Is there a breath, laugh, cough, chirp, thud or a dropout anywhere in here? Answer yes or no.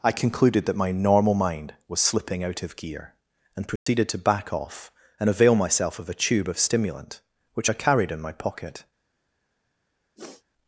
yes